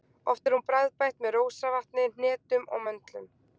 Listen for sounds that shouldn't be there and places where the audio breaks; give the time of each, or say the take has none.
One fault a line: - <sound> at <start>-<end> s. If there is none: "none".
none